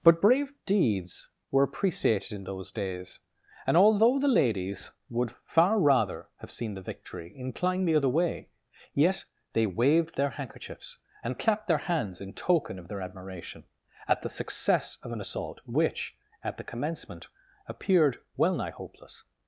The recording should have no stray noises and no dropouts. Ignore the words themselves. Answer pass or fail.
pass